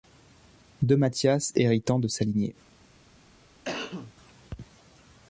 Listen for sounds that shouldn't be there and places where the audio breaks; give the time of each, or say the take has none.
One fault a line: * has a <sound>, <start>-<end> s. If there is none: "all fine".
* has a cough, 3.6-4.1 s